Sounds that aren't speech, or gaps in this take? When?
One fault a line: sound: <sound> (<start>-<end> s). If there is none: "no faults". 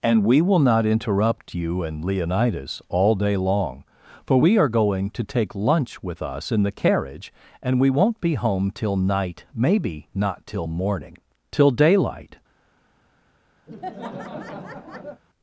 sound: laugh (13.7-15.2 s)